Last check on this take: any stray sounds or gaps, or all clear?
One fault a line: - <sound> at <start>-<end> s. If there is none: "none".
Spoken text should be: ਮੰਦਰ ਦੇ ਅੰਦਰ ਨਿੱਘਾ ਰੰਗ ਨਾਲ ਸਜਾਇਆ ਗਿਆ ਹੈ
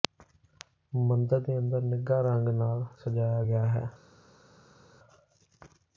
none